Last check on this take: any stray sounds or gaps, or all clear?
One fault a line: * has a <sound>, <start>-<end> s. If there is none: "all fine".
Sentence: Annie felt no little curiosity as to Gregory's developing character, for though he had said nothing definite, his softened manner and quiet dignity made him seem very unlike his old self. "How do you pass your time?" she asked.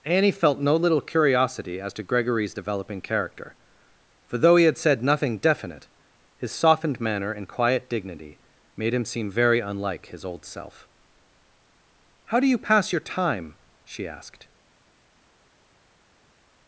all fine